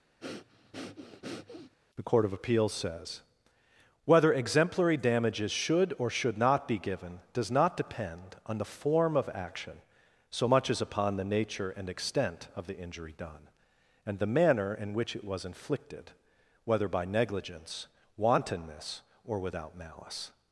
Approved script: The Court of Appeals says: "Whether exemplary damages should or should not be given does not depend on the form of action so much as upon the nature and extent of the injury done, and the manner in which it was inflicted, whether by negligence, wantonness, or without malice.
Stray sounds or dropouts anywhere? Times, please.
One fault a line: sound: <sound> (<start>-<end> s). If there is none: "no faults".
sound: breath (0.2-1.7 s)